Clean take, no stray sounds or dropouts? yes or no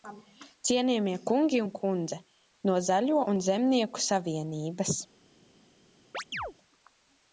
no